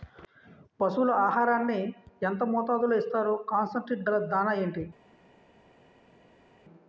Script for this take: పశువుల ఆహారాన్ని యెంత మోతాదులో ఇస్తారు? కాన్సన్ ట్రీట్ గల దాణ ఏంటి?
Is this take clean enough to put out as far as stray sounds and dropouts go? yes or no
yes